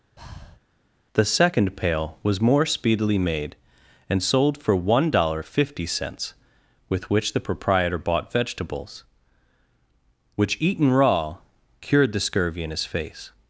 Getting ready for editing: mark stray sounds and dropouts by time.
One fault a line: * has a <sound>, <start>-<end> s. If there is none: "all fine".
* has a breath, 0.2-0.6 s